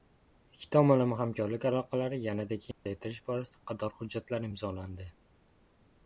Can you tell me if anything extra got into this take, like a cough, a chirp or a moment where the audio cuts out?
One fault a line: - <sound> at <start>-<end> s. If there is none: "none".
- dropout at 2.7-2.9 s